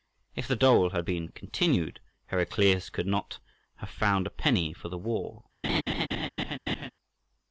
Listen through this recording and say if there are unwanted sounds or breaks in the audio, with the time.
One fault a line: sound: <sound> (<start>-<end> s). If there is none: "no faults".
sound: laugh (5.6-6.9 s)